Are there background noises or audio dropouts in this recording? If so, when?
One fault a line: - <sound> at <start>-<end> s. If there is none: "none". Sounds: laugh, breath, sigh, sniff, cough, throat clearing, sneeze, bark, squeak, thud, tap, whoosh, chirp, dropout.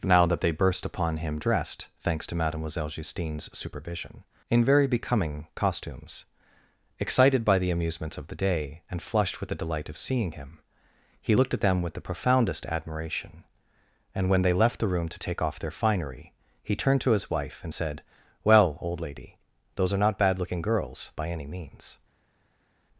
none